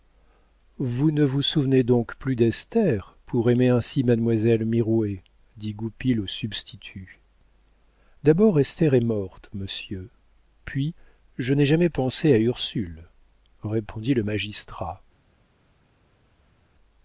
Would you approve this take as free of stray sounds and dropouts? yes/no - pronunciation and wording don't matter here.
yes